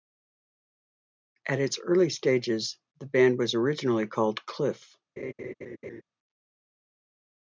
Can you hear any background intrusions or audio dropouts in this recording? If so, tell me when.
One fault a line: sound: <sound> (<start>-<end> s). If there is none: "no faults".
sound: laugh (5.2-6.0 s)